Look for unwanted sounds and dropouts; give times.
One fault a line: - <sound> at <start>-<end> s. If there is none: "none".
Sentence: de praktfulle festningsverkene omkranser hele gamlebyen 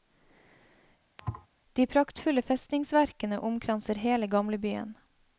- thud at 1.2-1.5 s